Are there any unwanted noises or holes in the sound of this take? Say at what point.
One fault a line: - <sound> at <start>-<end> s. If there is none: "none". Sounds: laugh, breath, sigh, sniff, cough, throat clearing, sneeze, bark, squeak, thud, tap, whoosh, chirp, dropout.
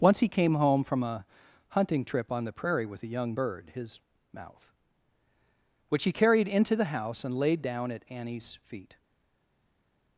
none